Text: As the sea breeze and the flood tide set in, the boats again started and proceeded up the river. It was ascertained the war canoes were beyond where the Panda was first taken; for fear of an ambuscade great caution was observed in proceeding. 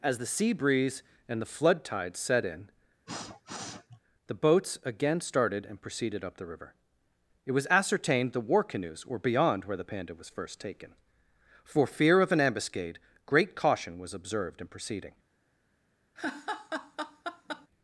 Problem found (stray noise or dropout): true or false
true